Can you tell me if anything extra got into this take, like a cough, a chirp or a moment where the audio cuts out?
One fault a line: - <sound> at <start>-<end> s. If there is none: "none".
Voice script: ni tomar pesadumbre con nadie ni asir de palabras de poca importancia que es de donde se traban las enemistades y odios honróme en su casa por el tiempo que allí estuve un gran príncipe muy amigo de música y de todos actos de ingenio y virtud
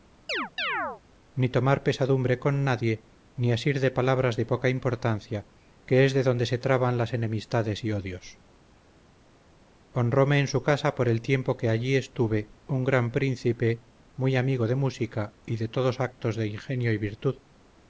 - chirp at 0.3-1.0 s